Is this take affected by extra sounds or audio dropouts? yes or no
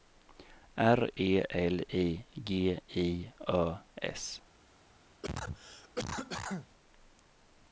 yes